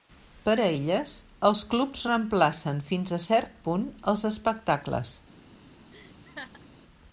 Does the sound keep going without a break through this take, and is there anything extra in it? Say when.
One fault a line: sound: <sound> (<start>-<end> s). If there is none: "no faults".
sound: laugh (5.9-6.7 s)